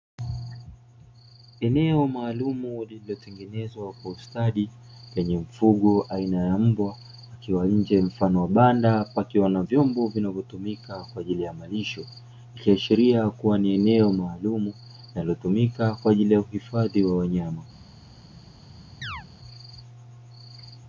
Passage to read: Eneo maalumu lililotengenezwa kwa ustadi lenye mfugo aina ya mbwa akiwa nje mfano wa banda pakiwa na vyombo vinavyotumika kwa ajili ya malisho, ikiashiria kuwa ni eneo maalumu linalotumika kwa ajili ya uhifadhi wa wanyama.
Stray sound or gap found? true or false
true